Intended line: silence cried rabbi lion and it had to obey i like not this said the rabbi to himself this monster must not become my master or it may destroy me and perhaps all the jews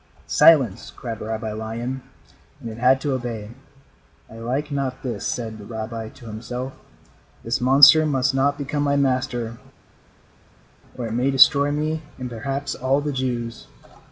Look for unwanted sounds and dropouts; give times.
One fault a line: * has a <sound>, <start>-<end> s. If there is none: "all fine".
all fine